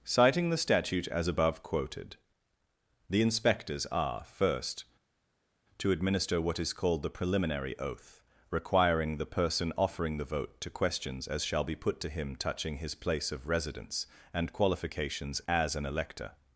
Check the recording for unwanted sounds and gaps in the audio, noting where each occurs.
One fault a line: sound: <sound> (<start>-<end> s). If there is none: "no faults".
no faults